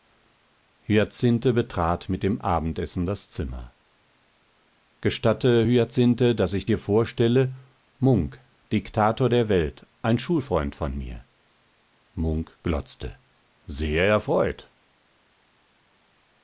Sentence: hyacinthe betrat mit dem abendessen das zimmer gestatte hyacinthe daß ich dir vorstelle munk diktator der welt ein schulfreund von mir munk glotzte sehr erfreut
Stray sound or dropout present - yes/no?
no